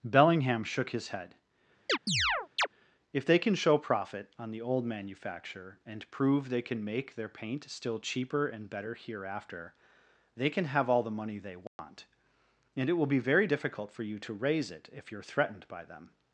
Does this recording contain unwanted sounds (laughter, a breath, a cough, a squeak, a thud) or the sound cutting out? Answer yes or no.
yes